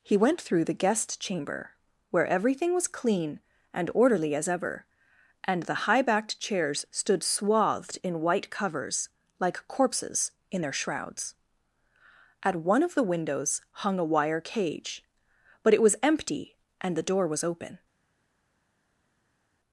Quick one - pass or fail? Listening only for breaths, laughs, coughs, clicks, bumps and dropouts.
pass